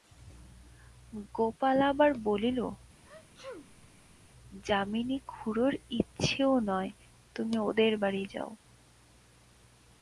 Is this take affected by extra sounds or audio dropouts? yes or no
yes